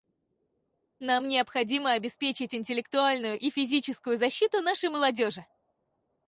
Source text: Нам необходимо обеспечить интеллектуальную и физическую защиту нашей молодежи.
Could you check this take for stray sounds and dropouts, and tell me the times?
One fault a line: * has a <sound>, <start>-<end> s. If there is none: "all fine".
all fine